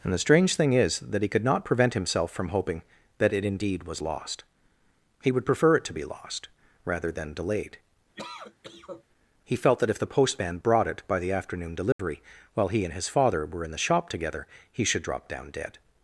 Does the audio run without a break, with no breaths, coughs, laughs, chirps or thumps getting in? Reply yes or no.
no